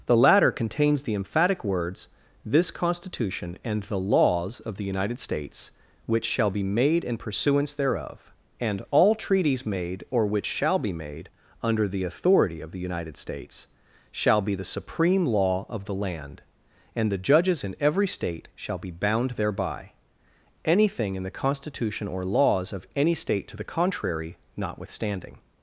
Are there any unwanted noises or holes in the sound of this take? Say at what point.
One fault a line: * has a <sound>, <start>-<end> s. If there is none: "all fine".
all fine